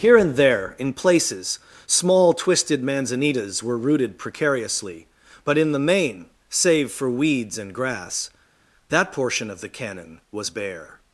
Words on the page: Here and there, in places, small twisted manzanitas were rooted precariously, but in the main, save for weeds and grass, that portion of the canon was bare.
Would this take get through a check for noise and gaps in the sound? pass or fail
pass